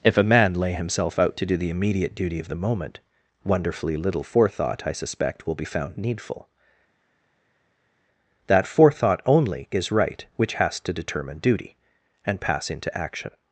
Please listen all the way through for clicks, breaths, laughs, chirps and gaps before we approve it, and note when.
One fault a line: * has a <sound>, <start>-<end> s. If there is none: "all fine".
all fine